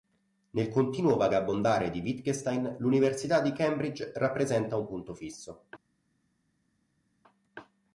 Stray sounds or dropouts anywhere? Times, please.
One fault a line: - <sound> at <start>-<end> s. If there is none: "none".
none